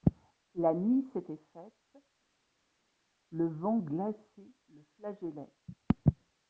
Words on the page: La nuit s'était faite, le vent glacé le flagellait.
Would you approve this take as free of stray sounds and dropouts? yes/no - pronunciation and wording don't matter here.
yes